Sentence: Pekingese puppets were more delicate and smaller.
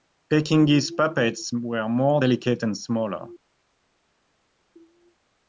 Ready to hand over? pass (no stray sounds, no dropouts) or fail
pass